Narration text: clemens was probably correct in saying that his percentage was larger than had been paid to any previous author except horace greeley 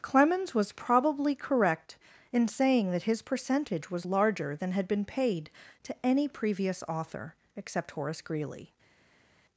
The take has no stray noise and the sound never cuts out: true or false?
true